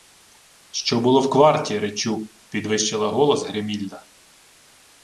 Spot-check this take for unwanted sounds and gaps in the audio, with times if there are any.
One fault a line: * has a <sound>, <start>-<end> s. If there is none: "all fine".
all fine